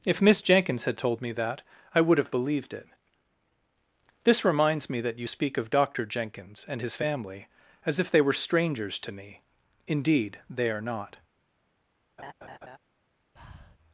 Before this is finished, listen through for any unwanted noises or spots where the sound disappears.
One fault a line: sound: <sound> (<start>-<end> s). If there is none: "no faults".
sound: laugh (12.2-12.8 s)
sound: breath (13.4-13.8 s)